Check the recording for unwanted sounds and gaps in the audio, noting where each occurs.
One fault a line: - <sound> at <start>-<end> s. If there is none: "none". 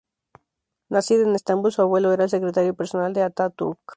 none